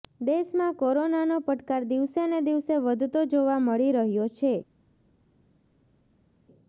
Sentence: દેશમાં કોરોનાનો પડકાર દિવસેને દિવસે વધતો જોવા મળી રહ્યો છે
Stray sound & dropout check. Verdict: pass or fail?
pass